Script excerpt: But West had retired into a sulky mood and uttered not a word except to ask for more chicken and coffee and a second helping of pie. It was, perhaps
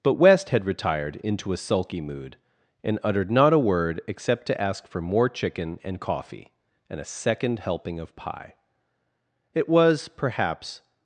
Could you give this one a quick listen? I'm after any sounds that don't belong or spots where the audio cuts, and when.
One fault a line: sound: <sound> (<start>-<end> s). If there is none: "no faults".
no faults